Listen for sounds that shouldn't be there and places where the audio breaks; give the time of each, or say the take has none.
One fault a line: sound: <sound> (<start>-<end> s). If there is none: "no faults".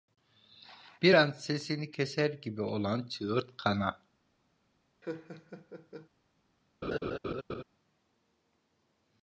sound: laugh (5.0-6.1 s)
sound: laugh (6.8-7.6 s)